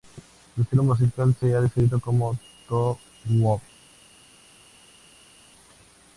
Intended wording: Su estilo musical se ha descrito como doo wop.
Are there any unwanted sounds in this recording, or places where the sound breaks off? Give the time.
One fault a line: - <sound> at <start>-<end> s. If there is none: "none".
none